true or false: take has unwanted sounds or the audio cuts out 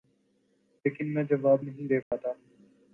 true